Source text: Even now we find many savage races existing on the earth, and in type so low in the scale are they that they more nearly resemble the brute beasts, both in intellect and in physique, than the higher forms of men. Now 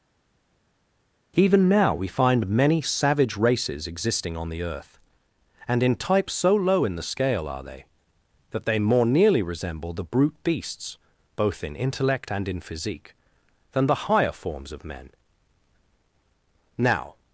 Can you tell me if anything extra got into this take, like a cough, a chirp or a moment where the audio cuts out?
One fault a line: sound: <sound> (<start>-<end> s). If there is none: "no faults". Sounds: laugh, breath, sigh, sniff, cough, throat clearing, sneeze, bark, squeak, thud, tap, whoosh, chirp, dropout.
no faults